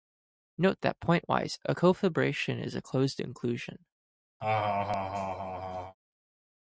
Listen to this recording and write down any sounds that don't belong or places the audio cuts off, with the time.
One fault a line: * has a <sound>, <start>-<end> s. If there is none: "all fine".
* has a laugh, 4.4-5.9 s